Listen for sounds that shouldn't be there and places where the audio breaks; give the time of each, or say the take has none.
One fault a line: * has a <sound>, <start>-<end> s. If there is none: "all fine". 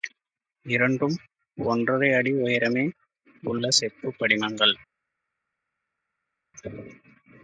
all fine